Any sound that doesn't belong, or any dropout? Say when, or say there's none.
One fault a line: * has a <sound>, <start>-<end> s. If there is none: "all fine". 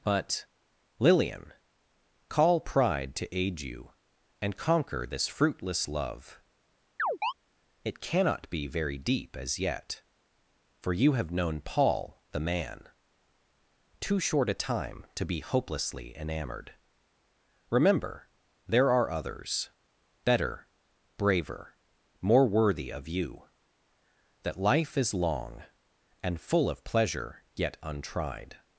* has a chirp, 7.0-7.3 s